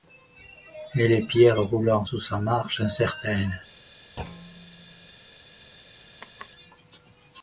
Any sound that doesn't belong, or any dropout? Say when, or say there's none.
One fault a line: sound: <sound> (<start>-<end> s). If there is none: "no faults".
sound: thud (4.2-5.1 s)
sound: laugh (6.2-6.5 s)